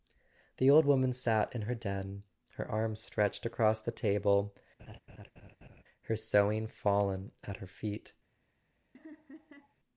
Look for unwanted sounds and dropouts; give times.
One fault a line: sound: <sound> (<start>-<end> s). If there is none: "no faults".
sound: laugh (4.8-5.8 s)
sound: laugh (8.9-9.7 s)